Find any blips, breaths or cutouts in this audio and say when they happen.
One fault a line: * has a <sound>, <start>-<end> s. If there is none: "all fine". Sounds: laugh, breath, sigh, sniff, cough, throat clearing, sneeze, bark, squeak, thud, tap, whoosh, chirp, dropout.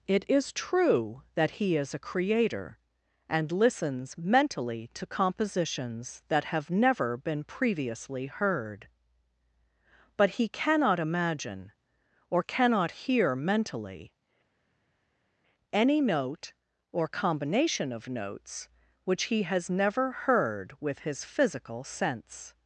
all fine